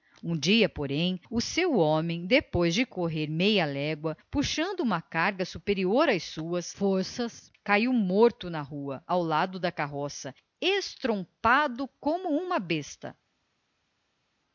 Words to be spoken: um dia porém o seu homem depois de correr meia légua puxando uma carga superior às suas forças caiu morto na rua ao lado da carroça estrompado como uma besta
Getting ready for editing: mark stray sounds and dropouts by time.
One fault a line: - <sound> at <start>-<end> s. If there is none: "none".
none